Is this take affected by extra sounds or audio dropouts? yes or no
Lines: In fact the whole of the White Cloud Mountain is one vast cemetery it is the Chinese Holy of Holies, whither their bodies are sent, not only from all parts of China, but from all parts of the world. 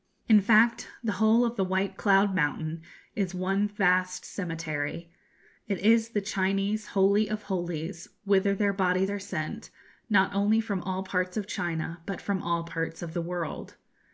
no